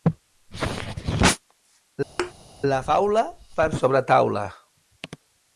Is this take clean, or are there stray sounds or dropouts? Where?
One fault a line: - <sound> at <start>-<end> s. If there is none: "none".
- thud at 2.2-2.3 s